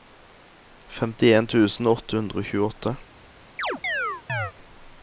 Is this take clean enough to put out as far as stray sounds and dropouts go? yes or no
no